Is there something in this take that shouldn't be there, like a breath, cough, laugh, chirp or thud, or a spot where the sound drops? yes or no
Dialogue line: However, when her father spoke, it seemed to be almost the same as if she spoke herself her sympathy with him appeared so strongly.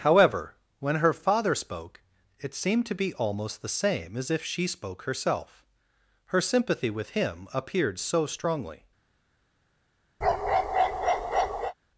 yes